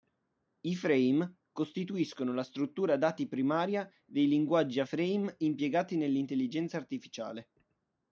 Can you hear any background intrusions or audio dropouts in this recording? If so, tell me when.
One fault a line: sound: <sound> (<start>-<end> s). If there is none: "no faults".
no faults